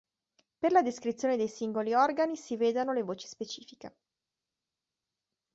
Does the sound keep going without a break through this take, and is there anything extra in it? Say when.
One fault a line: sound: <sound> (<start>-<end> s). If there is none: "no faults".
no faults